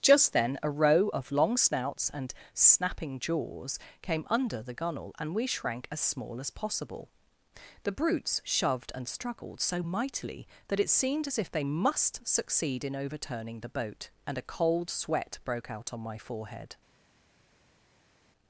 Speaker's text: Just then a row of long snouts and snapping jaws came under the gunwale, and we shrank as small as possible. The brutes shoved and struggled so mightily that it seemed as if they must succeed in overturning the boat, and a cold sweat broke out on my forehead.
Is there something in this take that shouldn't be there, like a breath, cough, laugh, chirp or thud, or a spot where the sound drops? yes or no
no